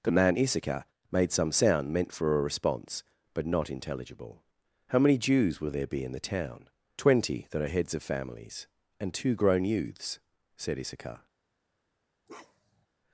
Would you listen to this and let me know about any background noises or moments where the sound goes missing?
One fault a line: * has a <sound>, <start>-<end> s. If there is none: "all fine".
* has a bark, 12.3-12.9 s